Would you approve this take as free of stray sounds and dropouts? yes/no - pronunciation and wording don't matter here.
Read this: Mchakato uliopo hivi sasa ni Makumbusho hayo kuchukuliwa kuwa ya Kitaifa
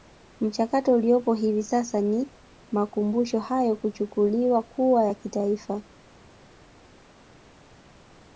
yes